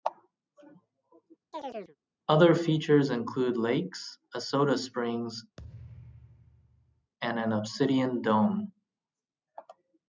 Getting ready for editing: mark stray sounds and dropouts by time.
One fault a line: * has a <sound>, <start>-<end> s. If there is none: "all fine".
* has a chirp, 1.5-2.0 s
* has a thud, 5.6-7.1 s